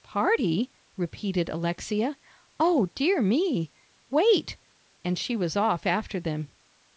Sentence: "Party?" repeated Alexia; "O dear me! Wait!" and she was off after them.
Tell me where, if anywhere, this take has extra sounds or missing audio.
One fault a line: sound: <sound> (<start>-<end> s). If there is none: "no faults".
no faults